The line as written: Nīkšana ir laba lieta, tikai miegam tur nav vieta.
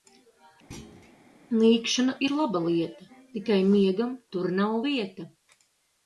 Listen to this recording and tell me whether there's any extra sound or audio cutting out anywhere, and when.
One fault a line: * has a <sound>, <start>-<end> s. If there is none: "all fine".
* has a thud, 0.7-1.2 s